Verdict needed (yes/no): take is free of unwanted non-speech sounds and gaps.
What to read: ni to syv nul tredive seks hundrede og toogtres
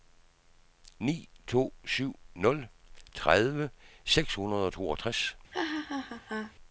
no